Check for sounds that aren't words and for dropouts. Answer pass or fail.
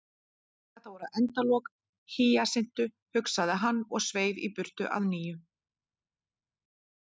pass